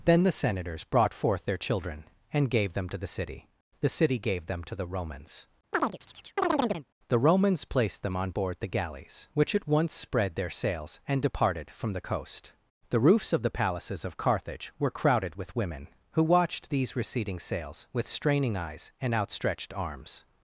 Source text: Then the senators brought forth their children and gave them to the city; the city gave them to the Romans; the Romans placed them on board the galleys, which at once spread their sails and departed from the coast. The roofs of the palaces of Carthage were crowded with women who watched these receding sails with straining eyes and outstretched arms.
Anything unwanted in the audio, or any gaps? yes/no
yes